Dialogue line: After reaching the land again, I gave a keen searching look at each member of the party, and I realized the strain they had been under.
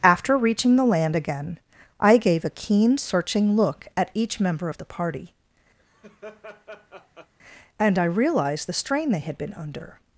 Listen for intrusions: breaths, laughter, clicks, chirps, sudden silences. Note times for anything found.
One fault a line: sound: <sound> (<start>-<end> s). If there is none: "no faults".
sound: laugh (5.8-7.3 s)